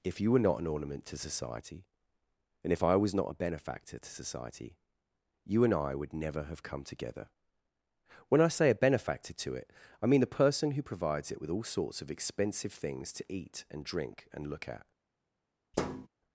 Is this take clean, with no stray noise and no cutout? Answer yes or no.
no